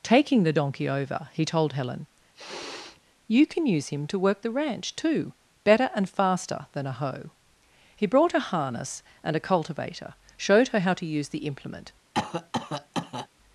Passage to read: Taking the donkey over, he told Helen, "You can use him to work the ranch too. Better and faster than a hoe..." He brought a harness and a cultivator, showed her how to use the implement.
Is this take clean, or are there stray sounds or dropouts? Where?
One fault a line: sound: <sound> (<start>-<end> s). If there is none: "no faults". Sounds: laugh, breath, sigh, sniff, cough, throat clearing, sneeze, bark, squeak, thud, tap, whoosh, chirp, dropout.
sound: sniff (2.3-3.0 s)
sound: cough (12.1-13.3 s)